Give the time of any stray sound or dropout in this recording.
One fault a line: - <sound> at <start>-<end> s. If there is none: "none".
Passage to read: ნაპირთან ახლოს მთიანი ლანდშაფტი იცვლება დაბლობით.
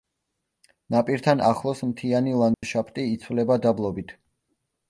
- dropout at 2.5-2.6 s